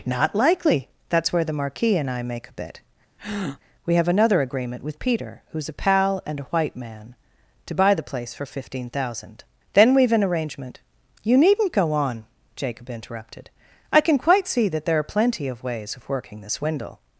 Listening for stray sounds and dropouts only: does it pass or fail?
fail